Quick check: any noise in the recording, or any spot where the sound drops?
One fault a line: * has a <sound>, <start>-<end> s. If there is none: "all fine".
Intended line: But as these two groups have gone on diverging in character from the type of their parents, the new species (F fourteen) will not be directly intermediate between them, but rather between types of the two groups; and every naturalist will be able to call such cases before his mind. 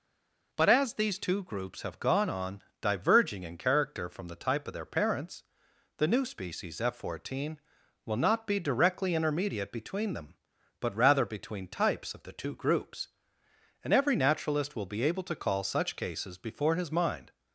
all fine